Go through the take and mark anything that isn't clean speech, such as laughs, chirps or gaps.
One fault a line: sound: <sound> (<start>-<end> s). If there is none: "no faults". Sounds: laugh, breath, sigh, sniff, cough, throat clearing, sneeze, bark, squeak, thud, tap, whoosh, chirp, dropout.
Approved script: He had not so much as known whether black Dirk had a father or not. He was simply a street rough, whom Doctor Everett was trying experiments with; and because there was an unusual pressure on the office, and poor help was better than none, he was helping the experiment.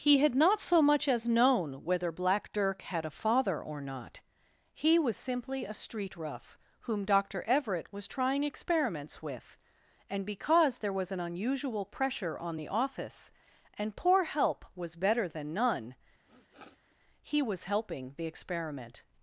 sound: sniff (16.3-17.0 s)